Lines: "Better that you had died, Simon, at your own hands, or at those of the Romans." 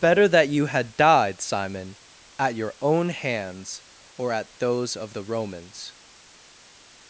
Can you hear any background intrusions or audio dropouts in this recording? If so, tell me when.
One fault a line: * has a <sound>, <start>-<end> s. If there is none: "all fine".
all fine